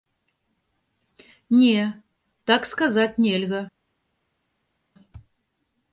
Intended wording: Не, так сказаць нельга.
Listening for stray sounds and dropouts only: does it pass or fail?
pass